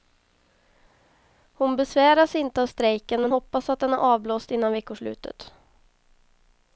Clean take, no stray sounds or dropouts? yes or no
yes